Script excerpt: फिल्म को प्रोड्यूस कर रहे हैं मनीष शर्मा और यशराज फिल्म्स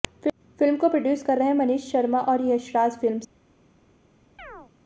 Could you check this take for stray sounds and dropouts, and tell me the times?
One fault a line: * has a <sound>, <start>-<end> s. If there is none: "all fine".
* has a chirp, 4.4-4.7 s